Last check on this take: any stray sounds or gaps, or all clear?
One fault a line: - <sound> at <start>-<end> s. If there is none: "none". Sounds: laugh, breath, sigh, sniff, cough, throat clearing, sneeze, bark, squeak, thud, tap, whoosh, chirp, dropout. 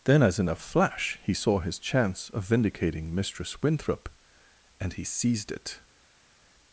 none